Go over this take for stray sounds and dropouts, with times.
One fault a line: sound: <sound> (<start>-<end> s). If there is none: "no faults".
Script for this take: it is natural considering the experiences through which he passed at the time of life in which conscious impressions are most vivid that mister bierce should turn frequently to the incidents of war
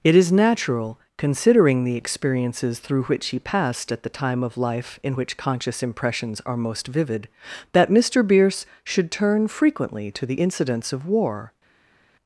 no faults